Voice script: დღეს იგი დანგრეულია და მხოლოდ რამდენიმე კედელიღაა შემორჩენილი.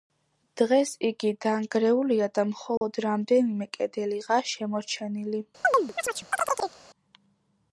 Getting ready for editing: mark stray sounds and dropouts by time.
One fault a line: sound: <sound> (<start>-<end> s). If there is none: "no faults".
sound: dropout (2.8-2.8 s)
sound: chirp (5.6-6.8 s)